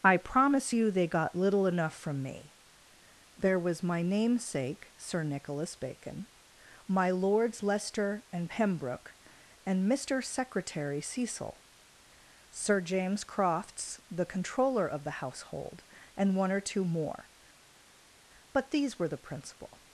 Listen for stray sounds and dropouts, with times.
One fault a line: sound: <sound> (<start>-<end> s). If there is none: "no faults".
no faults